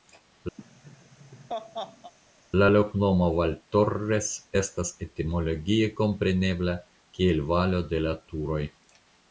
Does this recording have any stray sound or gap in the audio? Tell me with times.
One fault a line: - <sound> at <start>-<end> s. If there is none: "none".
- laugh at 0.6-2.1 s